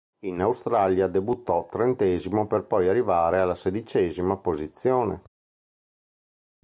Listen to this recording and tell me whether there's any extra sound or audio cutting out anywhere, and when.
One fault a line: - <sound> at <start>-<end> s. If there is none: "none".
none